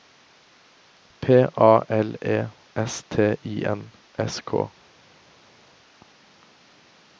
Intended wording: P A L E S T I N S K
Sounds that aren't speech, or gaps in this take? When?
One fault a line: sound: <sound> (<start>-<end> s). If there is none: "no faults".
no faults